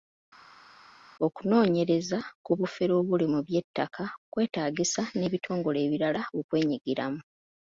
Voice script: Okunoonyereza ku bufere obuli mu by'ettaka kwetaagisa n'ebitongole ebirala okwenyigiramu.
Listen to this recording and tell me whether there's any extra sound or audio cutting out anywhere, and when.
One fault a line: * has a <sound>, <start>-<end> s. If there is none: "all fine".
all fine